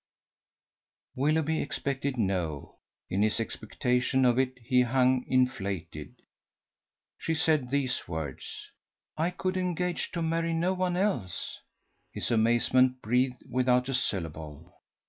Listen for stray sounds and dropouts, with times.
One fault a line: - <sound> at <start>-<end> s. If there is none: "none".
none